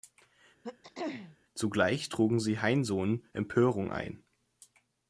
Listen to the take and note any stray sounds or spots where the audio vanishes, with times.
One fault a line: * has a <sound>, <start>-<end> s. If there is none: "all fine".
* has a throat clearing, 0.6-1.4 s